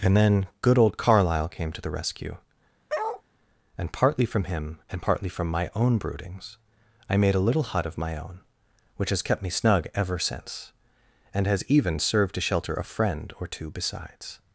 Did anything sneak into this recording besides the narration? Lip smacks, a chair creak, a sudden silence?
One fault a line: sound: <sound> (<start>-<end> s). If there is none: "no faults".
sound: bark (2.9-3.2 s)